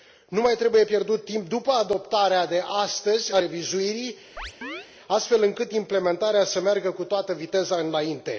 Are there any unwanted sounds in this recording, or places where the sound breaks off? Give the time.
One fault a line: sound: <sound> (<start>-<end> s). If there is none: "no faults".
sound: chirp (4.4-4.9 s)